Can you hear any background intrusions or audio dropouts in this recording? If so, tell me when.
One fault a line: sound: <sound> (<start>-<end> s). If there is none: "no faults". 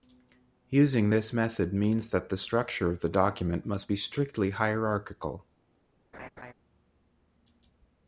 sound: laugh (6.1-6.5 s)